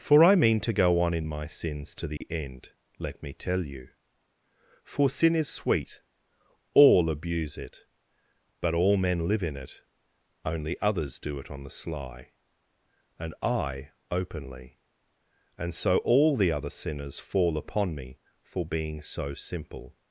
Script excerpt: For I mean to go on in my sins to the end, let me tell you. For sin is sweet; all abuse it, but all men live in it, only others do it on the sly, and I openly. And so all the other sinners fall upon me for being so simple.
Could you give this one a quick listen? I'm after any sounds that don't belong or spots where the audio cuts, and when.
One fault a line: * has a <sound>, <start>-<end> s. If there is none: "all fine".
* has a dropout, 2.2-2.2 s